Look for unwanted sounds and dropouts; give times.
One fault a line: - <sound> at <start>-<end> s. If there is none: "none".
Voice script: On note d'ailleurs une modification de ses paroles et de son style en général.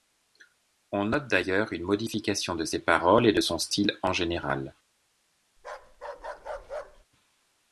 - bark at 5.6-7.1 s